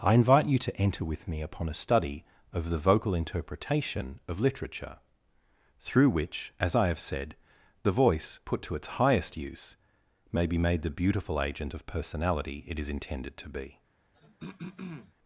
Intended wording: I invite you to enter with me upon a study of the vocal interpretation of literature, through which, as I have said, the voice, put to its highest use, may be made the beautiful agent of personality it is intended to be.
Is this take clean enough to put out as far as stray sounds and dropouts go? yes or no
no